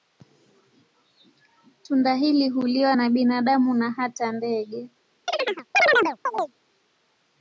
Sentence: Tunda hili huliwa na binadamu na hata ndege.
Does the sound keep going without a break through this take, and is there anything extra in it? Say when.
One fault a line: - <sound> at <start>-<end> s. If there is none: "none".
- chirp at 5.3-6.5 s